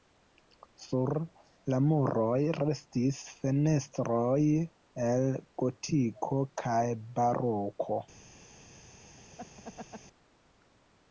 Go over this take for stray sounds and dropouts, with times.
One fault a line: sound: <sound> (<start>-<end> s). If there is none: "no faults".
sound: laugh (9.4-10.0 s)